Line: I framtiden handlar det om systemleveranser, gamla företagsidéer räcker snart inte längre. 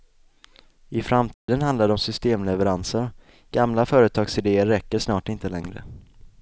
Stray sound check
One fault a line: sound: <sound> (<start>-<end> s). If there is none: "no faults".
sound: dropout (1.3-1.5 s)